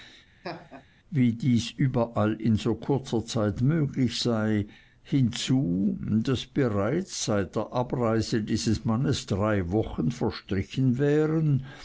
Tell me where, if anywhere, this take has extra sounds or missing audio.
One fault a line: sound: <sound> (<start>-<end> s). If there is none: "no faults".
sound: laugh (0.4-0.9 s)